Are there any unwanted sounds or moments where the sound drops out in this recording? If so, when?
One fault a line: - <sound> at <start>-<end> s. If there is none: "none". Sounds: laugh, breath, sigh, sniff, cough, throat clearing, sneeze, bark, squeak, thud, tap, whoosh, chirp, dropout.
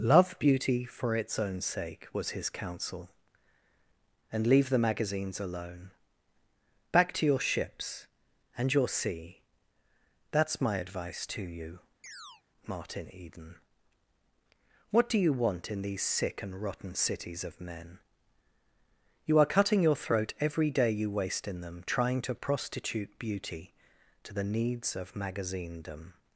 - chirp at 12.0-12.4 s